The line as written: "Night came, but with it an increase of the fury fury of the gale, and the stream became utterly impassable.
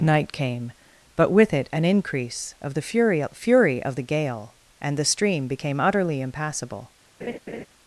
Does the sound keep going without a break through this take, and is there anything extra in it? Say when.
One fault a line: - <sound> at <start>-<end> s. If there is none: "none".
- laugh at 7.2-7.7 s